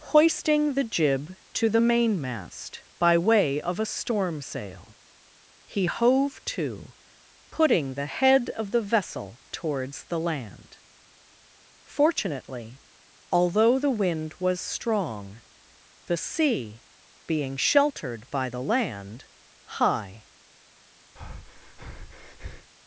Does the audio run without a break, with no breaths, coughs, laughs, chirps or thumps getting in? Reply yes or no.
no